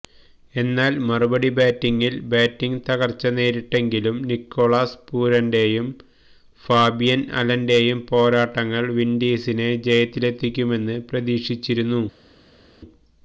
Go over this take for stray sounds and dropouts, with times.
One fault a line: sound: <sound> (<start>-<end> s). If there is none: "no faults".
no faults